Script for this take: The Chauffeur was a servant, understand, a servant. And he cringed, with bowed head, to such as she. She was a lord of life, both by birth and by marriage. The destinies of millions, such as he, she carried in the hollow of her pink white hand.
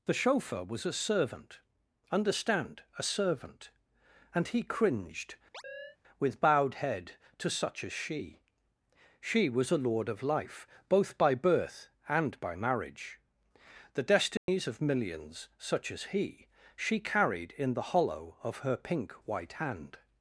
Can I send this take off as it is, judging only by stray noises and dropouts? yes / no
no